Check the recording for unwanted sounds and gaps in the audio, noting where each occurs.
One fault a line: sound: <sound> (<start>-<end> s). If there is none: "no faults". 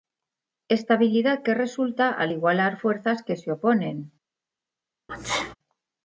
sound: sneeze (5.1-5.6 s)